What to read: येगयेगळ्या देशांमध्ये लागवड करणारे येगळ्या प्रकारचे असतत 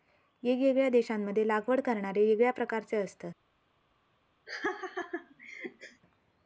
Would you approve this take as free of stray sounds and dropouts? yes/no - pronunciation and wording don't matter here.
no